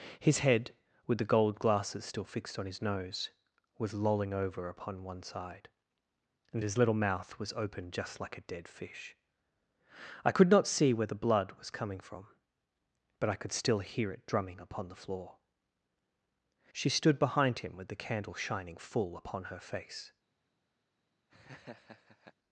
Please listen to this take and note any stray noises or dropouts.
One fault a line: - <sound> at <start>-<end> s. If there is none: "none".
- laugh at 21.3-22.3 s